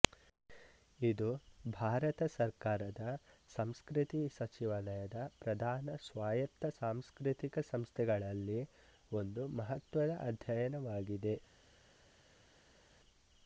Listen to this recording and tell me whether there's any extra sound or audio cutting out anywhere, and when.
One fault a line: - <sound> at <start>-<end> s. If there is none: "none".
none